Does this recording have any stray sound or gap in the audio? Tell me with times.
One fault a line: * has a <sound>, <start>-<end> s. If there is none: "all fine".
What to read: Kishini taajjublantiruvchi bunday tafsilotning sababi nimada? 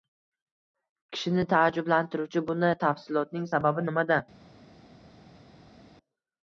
all fine